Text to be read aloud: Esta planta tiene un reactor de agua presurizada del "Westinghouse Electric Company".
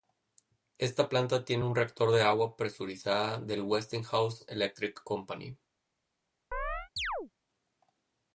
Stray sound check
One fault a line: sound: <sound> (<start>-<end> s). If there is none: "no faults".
sound: chirp (6.5-7.3 s)